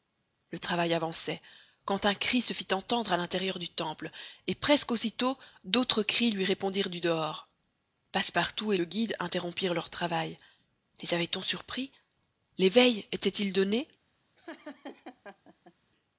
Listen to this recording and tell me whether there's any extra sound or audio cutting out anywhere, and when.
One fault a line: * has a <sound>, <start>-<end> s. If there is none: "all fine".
* has a laugh, 14.4-15.7 s